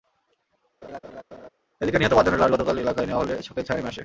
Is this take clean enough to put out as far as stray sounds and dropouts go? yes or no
no